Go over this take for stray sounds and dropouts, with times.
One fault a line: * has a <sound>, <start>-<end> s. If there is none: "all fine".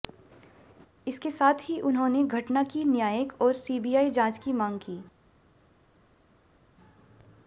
all fine